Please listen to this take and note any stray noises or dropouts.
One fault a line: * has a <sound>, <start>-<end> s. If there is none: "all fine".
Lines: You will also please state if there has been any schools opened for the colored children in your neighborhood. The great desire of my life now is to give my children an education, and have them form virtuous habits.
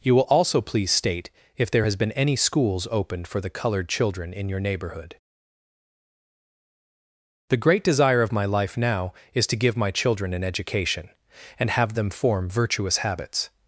all fine